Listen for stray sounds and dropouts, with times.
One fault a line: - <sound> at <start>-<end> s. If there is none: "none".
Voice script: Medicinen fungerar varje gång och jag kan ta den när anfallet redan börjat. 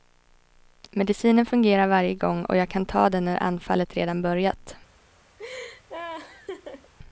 - laugh at 5.4-6.9 s